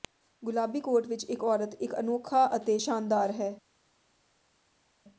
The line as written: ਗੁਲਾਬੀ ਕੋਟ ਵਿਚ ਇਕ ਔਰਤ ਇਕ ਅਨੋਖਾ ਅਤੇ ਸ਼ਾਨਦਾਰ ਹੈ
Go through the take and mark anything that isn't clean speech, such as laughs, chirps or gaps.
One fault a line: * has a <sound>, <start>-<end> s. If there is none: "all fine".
all fine